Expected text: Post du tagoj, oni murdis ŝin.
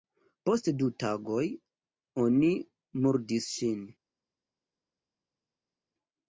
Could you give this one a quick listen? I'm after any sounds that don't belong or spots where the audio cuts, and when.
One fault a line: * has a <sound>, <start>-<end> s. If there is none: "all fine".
all fine